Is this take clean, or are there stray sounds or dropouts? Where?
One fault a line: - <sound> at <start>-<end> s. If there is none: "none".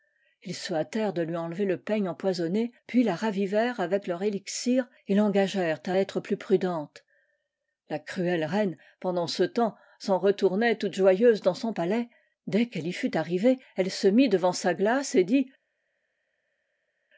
none